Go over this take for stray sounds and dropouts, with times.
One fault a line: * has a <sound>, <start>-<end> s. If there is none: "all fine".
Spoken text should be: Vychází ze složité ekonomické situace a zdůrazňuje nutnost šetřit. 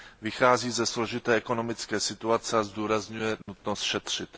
* has a dropout, 3.4-3.5 s